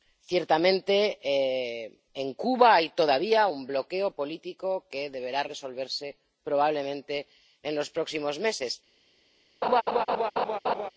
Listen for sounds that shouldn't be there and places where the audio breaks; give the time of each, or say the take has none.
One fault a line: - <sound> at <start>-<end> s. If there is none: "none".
- laugh at 9.6-10.9 s